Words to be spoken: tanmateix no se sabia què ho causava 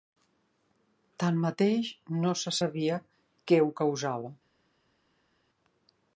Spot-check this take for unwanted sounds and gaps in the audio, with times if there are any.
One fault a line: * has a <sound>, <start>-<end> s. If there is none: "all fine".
all fine